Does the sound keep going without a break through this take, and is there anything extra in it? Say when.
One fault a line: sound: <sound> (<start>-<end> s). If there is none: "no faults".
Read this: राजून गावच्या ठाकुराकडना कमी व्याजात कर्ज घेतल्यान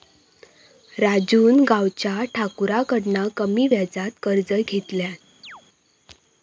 sound: chirp (5.4-5.6 s)